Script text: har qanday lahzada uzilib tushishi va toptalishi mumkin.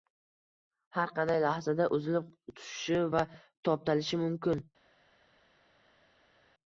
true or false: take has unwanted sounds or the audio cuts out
false